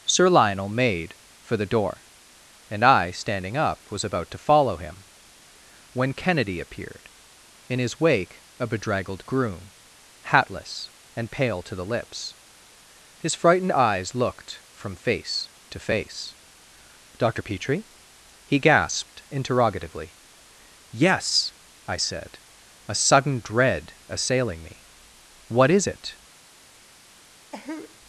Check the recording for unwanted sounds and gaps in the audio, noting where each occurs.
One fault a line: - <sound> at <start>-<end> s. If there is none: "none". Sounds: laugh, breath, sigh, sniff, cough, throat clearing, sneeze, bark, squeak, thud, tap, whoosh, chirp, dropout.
- cough at 27.5-28.0 s